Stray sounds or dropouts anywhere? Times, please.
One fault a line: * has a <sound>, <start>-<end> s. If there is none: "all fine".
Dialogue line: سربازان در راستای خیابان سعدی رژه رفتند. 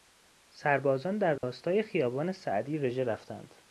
* has a dropout, 1.4-1.4 s